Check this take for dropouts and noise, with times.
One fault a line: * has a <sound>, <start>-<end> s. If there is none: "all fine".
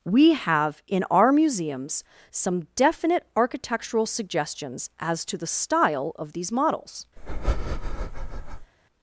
* has a breath, 7.2-8.7 s